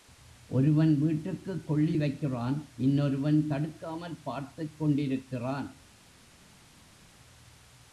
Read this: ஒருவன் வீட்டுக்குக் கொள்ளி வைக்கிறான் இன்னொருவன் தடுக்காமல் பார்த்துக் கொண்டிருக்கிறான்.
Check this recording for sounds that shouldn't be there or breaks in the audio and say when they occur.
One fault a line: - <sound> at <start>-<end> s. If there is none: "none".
none